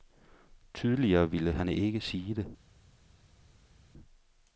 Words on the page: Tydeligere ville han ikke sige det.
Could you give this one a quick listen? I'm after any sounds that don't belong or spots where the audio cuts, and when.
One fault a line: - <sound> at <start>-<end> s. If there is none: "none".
none